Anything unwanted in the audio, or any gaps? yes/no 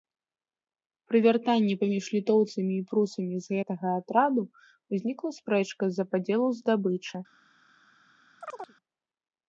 yes